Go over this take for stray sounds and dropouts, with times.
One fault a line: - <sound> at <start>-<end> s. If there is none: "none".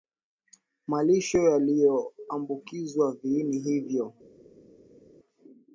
none